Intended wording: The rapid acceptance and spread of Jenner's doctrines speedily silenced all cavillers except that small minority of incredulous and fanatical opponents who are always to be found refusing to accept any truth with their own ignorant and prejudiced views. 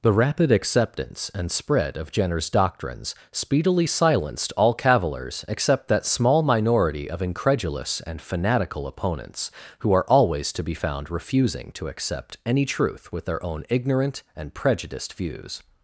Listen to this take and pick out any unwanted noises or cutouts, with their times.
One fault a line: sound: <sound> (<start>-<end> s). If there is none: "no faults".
no faults